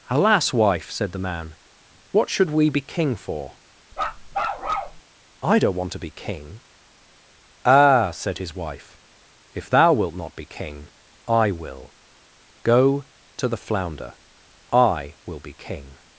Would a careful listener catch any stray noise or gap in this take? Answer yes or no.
yes